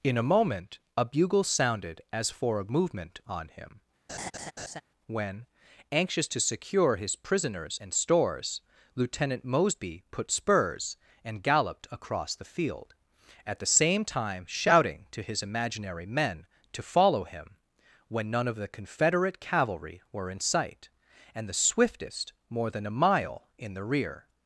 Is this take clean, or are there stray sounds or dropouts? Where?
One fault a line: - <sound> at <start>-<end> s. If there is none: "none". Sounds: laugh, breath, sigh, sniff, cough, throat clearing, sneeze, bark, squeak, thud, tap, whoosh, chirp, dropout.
- laugh at 4.1-4.8 s